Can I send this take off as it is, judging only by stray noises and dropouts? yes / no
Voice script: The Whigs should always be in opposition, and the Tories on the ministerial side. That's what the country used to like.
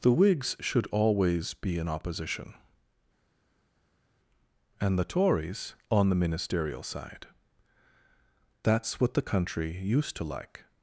yes